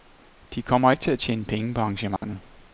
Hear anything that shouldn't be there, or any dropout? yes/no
yes